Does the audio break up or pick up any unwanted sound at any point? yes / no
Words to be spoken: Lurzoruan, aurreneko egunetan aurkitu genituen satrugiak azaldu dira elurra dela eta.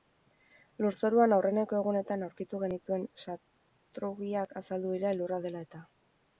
no